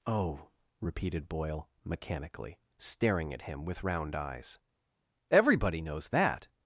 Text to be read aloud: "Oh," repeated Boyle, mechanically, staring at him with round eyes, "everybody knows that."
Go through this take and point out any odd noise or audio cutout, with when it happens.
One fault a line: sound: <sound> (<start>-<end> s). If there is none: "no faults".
no faults